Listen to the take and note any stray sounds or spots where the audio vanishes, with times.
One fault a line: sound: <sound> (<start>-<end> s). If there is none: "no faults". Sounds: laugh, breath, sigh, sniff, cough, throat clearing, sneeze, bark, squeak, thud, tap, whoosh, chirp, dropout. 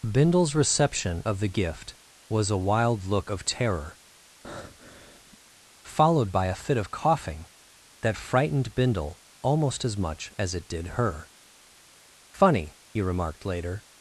sound: breath (4.4-5.4 s)